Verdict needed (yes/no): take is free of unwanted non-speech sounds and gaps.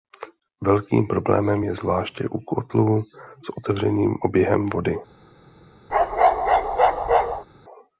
no